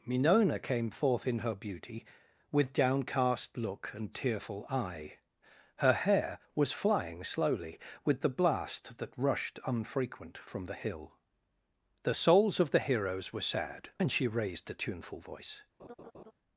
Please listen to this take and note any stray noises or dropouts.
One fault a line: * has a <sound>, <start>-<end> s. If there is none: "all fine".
* has a laugh, 15.8-16.3 s